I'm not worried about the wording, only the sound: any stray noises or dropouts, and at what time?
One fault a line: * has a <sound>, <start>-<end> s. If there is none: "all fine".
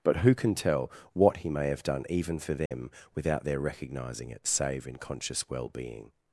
* has a dropout, 2.7-2.7 s